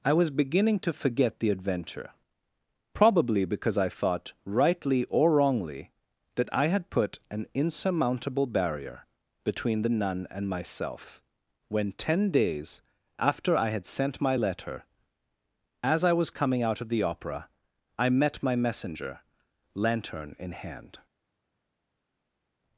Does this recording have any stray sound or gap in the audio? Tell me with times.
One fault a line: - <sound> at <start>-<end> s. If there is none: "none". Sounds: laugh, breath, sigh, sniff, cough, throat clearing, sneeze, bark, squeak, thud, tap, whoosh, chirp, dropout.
none